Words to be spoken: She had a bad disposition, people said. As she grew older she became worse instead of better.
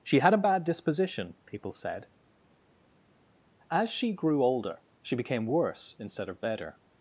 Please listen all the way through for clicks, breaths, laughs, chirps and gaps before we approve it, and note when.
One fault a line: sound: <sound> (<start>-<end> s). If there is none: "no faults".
no faults